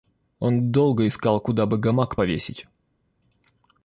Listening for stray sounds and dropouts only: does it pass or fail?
pass